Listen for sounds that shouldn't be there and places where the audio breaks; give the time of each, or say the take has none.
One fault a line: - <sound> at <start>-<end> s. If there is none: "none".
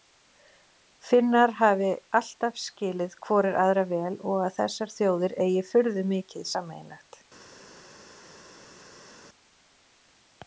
none